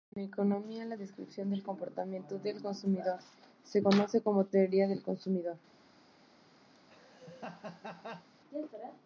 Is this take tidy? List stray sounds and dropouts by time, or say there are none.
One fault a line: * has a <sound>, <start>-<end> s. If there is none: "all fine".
* has a laugh, 6.7-8.3 s